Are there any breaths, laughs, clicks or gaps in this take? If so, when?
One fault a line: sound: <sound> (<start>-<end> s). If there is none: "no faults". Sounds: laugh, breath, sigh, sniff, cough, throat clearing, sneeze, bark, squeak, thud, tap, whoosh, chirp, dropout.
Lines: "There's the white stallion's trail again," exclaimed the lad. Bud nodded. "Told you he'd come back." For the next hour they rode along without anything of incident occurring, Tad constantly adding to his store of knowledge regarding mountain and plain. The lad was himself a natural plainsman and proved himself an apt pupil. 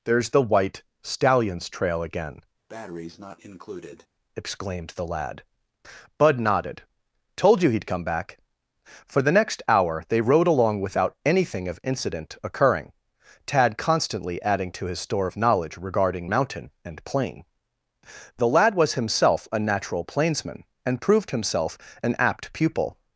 sound: breath (2.7-4.1 s)